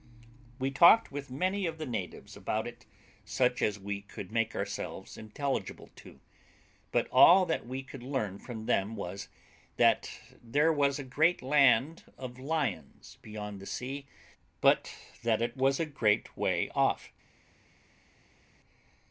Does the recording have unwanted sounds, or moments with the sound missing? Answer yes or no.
no